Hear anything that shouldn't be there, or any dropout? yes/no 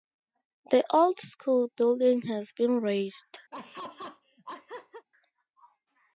yes